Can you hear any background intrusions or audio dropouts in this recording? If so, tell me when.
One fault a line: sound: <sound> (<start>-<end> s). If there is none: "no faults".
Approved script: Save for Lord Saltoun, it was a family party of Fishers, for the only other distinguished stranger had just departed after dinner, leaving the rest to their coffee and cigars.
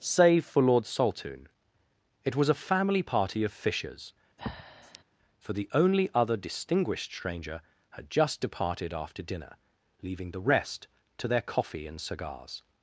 sound: breath (4.4-5.0 s)